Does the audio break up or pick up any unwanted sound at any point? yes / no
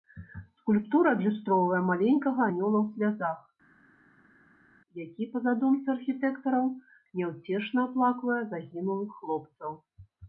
no